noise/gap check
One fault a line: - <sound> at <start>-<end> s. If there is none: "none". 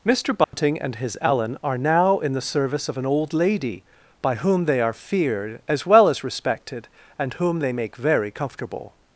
- dropout at 0.4-0.5 s